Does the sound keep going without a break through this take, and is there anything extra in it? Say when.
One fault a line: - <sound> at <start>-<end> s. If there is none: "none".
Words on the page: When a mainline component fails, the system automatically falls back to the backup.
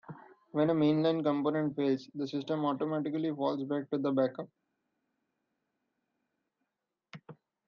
none